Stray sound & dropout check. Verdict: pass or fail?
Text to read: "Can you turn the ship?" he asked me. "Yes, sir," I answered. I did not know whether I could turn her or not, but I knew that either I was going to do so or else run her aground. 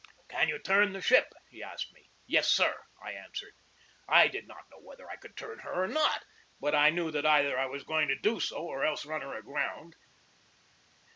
pass